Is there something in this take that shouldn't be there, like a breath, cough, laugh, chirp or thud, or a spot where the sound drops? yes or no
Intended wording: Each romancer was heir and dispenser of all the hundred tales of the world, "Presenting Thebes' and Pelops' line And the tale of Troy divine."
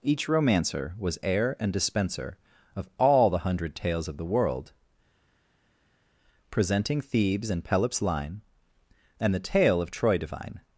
no